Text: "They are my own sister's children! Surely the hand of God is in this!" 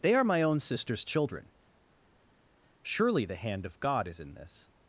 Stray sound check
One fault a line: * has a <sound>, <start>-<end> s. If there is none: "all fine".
all fine